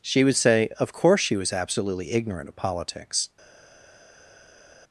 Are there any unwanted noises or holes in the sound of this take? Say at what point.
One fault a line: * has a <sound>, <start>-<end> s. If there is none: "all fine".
all fine